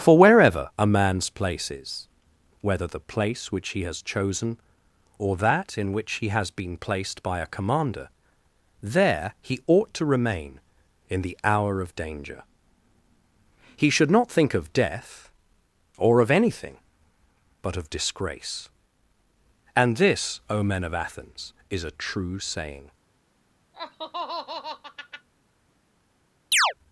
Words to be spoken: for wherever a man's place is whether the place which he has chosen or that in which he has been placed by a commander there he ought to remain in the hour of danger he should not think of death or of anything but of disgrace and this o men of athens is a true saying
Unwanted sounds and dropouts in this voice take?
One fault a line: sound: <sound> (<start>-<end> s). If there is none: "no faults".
sound: laugh (23.7-25.3 s)
sound: chirp (26.5-26.7 s)